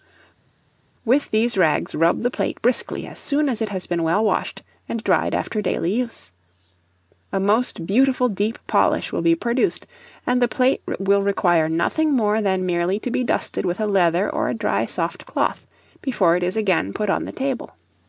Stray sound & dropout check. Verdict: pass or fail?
pass